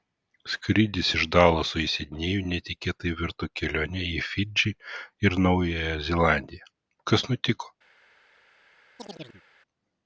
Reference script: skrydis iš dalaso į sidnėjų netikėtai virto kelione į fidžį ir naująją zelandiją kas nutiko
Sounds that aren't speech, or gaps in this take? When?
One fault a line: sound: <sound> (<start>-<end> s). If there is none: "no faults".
sound: chirp (9.0-9.4 s)